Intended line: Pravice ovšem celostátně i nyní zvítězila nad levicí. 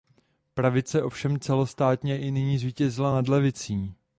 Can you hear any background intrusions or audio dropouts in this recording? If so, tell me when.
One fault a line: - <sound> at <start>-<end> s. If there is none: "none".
none